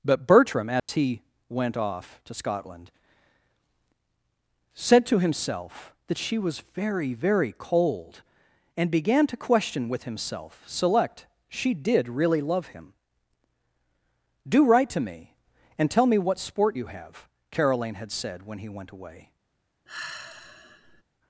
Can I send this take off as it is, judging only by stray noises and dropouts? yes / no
no